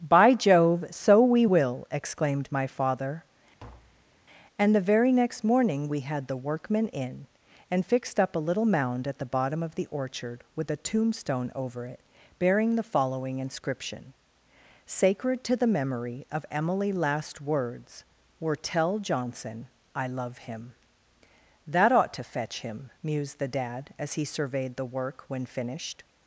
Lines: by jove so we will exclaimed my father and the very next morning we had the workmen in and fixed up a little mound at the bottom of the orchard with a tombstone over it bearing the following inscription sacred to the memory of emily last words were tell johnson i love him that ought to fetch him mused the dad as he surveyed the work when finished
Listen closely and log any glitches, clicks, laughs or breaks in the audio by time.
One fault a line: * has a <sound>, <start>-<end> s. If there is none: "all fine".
* has a tap, 3.6-4.1 s